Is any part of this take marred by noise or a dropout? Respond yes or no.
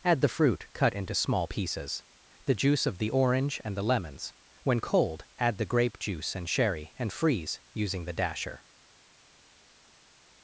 no